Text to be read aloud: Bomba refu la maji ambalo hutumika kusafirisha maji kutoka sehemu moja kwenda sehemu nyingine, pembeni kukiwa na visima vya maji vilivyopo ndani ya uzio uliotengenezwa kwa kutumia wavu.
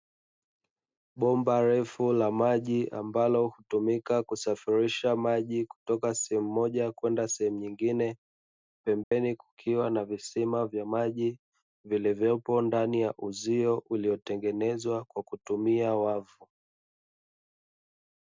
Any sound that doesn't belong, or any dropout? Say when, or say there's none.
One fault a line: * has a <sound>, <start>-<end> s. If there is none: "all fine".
* has a dropout, 9.0-9.1 s